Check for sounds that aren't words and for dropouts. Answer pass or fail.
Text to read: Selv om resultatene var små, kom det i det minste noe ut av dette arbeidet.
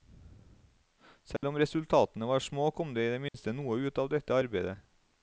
fail